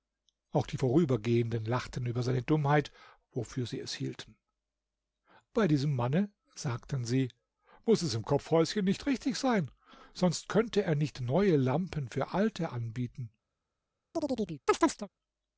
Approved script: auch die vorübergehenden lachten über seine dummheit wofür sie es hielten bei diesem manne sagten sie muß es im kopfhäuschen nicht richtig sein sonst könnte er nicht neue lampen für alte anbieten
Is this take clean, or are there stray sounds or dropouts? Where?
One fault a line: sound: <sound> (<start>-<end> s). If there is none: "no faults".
sound: chirp (14.1-15.1 s)